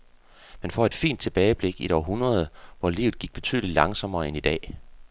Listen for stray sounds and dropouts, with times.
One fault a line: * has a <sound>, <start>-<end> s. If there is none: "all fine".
all fine